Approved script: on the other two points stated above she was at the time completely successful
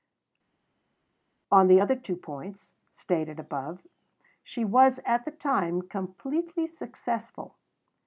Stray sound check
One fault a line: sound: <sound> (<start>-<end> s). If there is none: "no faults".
no faults